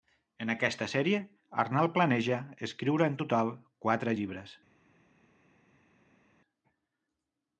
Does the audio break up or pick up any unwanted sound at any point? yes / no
no